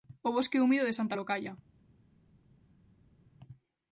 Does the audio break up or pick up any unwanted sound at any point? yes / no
no